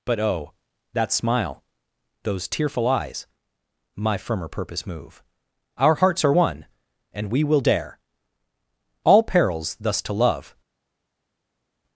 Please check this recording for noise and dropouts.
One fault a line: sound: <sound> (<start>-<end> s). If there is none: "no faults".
no faults